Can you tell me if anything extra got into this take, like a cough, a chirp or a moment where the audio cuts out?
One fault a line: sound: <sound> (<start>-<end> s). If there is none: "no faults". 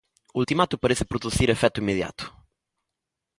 no faults